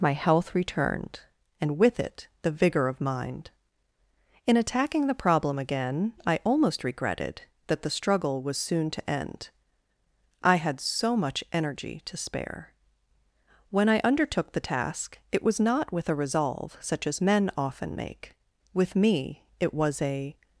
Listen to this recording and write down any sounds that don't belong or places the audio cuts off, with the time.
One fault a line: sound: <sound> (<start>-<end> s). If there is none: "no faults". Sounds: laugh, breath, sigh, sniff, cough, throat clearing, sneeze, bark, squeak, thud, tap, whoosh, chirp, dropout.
no faults